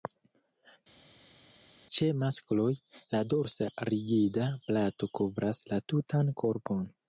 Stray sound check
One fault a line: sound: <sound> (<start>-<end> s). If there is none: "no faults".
no faults